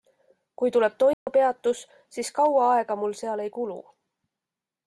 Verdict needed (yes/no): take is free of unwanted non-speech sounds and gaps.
no